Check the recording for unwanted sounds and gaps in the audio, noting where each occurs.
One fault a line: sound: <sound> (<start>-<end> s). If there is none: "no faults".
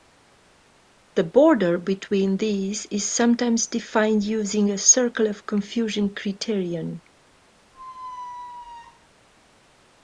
sound: squeak (7.7-9.1 s)